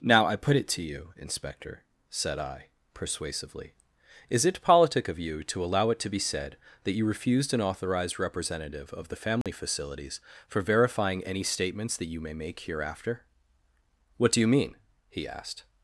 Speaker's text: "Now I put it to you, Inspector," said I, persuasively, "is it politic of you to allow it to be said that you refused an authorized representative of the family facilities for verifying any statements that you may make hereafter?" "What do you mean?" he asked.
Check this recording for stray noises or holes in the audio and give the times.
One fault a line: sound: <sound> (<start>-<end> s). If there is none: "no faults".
sound: dropout (9.4-9.5 s)